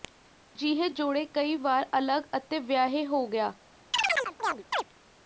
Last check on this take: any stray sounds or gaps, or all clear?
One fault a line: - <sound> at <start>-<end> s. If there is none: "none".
- chirp at 3.9-4.8 s